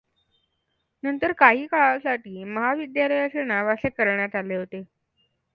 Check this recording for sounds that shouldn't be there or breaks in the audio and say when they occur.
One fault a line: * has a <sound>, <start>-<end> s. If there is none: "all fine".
all fine